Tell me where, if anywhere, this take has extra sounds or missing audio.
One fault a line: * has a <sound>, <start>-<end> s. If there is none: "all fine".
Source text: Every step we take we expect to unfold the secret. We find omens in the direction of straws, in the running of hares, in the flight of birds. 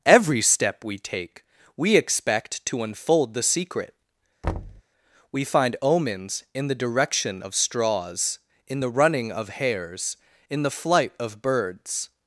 * has a thud, 4.4-4.8 s